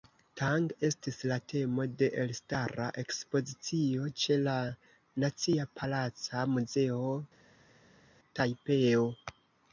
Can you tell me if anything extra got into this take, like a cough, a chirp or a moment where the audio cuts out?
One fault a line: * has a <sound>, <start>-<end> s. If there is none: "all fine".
all fine